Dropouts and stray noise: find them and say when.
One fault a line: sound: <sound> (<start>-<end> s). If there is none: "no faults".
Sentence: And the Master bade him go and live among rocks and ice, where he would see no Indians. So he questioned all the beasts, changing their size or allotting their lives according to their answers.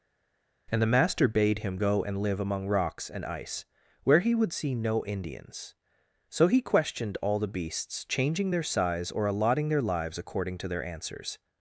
no faults